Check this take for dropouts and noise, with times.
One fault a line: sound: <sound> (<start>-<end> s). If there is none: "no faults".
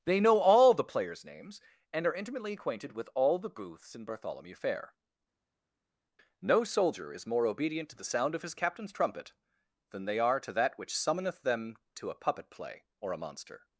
no faults